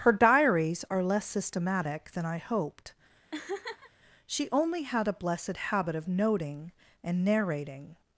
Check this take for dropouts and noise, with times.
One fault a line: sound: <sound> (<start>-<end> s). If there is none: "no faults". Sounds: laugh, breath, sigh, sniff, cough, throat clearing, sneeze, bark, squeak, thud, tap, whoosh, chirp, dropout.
sound: laugh (3.3-3.9 s)